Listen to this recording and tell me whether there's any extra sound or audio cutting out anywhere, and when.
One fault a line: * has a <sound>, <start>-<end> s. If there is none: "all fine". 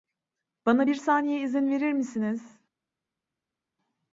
all fine